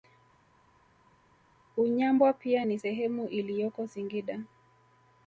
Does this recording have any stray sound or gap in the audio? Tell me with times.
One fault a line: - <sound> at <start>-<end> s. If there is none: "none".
none